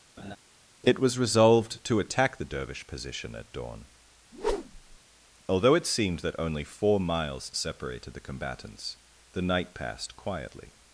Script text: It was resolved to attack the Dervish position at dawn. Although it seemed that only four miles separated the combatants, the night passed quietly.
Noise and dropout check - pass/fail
fail